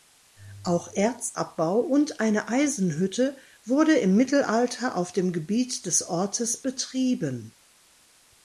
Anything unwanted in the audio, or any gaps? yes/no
no